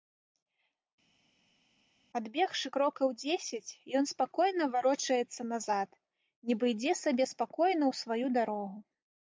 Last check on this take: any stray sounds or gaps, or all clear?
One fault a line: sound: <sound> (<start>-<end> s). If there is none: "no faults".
no faults